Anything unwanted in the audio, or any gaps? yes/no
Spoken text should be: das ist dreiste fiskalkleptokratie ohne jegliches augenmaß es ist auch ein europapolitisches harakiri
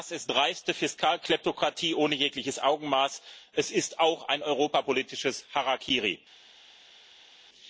no